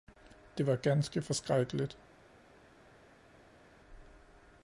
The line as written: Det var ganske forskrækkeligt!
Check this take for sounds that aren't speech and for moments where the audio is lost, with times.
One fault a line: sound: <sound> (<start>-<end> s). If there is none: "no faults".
no faults